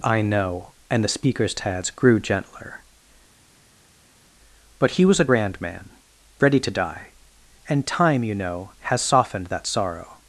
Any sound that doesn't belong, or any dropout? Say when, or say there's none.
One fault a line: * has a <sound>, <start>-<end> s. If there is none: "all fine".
all fine